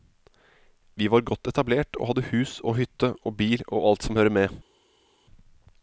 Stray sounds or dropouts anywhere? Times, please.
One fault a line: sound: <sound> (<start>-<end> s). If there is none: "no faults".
no faults